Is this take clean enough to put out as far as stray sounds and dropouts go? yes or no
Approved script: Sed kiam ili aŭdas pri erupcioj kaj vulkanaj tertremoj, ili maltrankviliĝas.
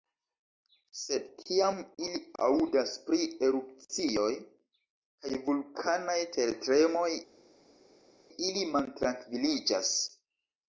yes